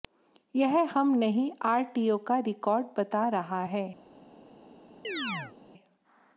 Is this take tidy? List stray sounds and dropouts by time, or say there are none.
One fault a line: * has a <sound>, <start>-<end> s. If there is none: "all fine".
* has a chirp, 5.0-5.5 s